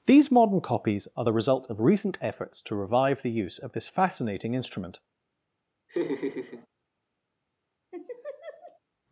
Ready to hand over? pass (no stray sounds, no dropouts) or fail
fail